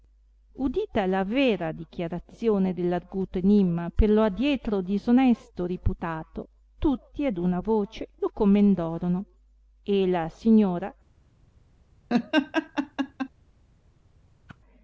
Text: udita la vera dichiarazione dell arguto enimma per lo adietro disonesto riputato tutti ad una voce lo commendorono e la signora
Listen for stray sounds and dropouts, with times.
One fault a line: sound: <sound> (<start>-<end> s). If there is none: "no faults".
sound: laugh (12.1-13.3 s)
sound: whoosh (14.5-14.6 s)